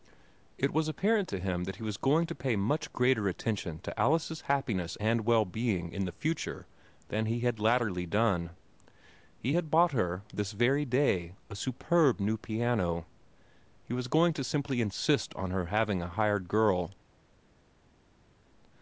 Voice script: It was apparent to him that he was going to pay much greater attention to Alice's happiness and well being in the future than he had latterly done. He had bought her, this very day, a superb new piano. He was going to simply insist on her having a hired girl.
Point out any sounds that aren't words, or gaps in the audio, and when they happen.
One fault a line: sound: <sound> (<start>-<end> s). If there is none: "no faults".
no faults